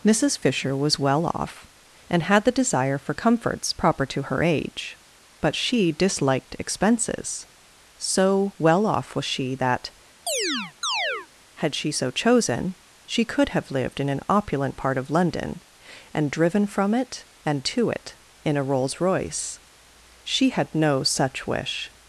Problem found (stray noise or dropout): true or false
true